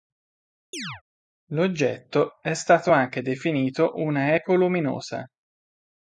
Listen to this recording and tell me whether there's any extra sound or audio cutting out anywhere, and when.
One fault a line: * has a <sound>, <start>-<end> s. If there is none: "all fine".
* has a chirp, 0.7-1.0 s